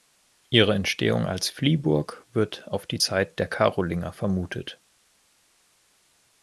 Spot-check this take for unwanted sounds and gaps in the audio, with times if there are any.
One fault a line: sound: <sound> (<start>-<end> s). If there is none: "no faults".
no faults